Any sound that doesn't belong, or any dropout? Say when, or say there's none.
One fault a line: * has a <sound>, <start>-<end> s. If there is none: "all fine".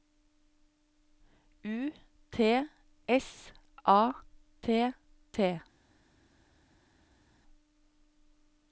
all fine